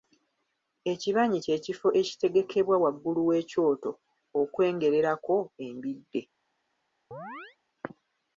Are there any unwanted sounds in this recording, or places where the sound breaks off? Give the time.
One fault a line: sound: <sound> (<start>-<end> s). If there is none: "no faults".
sound: chirp (7.1-7.6 s)